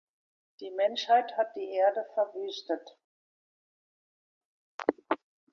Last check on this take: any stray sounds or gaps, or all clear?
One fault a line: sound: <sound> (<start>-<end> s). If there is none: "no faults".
no faults